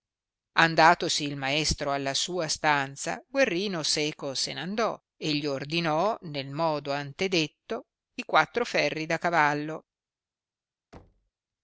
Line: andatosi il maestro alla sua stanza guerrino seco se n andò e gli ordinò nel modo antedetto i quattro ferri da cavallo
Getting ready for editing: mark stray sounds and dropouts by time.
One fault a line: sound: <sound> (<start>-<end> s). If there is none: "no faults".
sound: thud (10.9-11.3 s)